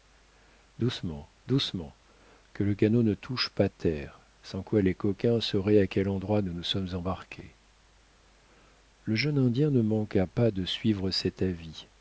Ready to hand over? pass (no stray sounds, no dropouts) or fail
pass